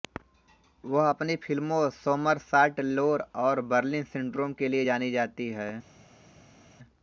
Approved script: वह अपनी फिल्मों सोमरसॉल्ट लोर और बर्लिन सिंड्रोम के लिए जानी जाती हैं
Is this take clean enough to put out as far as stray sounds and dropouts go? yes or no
yes